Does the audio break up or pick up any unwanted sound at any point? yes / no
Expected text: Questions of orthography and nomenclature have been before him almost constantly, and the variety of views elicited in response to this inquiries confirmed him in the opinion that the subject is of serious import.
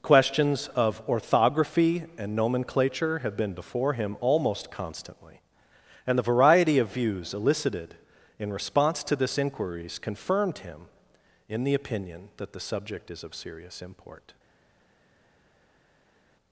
no